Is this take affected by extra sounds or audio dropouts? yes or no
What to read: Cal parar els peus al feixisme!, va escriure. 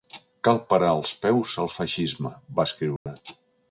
yes